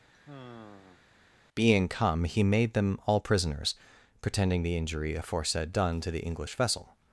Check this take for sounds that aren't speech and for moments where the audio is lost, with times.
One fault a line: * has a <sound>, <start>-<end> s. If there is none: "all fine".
* has a sigh, 0.1-1.1 s